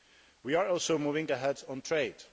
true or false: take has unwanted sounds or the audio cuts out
false